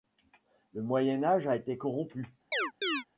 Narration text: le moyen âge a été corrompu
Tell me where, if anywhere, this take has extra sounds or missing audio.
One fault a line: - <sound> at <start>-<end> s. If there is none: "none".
- chirp at 2.5-3.0 s